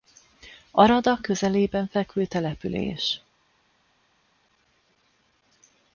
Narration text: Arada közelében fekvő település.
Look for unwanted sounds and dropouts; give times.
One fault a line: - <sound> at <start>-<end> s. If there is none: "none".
none